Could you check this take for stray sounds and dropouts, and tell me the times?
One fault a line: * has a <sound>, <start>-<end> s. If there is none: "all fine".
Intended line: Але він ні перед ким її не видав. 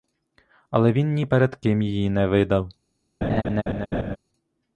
* has a laugh, 3.2-4.2 s